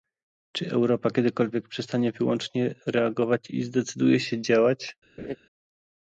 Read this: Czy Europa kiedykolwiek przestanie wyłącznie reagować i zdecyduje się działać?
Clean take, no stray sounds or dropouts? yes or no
no